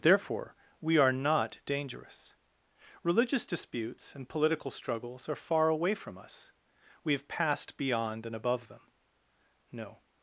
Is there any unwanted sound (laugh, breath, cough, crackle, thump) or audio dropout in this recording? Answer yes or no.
no